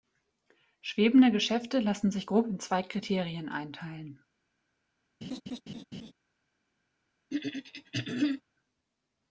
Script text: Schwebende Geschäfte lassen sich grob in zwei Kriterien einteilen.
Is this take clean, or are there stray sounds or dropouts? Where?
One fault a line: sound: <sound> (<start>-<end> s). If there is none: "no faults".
sound: laugh (5.2-6.1 s)
sound: throat clearing (7.3-8.4 s)